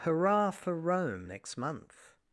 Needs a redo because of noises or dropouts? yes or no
no